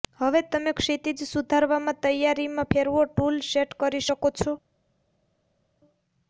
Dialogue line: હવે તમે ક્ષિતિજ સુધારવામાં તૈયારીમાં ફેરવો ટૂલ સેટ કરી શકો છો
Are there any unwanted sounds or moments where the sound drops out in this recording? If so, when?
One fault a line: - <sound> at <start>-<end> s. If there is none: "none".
none